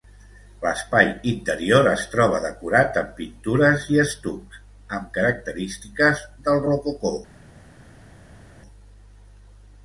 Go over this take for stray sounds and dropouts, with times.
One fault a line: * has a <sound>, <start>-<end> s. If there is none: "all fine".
all fine